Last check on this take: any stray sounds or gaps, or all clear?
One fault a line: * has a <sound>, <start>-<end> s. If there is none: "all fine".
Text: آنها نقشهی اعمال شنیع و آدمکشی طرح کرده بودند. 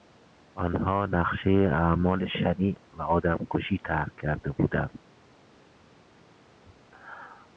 all fine